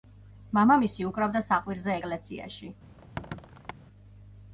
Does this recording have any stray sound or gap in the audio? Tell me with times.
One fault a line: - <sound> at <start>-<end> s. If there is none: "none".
- squeak at 3.0-3.7 s